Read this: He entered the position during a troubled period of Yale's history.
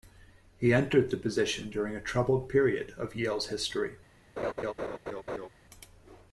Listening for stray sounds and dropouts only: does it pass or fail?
fail